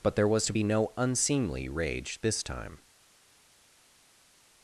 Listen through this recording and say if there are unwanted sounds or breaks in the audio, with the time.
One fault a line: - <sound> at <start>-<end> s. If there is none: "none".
none